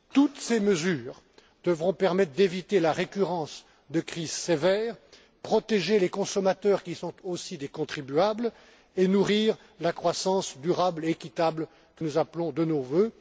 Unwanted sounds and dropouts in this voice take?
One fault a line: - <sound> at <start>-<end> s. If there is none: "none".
none